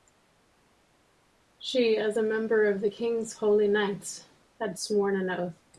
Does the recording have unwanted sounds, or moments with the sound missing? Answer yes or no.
no